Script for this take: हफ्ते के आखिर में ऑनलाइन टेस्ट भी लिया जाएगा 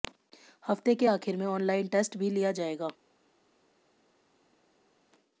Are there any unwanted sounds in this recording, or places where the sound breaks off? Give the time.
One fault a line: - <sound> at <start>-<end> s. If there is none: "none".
none